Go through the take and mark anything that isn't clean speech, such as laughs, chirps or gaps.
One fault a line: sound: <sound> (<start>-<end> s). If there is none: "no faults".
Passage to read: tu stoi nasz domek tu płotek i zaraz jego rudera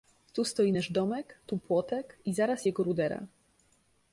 no faults